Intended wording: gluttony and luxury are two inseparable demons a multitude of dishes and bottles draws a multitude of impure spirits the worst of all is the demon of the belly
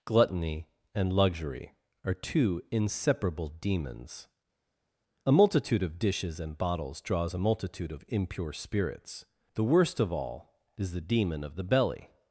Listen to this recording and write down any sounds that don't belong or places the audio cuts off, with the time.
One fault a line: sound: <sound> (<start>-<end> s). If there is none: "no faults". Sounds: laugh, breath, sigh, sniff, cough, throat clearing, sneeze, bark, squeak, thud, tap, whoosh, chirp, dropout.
no faults